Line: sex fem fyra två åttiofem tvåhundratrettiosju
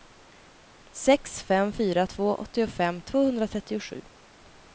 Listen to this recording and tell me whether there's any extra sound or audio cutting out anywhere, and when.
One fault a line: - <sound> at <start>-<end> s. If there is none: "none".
none